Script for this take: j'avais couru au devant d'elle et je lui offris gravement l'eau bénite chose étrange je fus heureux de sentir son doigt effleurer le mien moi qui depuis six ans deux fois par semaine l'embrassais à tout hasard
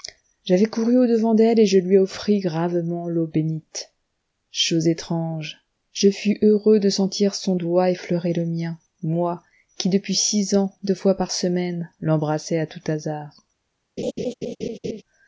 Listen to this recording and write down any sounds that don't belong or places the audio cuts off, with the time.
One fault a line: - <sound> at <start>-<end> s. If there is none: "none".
- laugh at 14.0-15.0 s